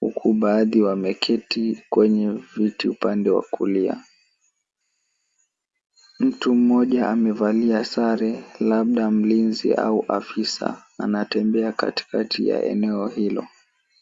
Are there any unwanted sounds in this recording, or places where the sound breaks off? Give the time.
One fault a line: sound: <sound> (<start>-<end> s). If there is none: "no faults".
no faults